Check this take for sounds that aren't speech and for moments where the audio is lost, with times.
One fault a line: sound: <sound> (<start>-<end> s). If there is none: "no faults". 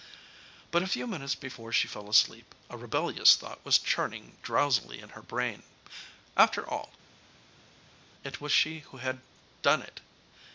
no faults